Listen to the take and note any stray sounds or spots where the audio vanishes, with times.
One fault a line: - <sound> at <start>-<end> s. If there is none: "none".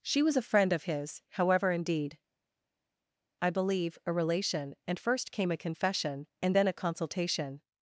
none